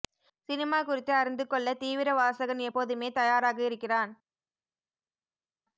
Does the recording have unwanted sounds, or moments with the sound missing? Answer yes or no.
no